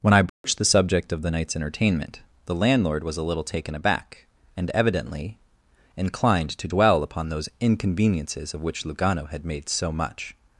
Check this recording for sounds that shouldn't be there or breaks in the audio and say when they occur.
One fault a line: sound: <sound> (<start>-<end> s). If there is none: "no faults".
sound: dropout (0.3-0.4 s)